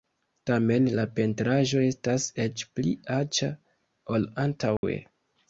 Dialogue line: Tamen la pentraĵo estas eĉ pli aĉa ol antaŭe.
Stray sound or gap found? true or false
true